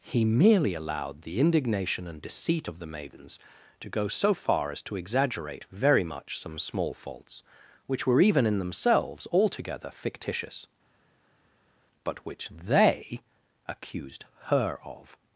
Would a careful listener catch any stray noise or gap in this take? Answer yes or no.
no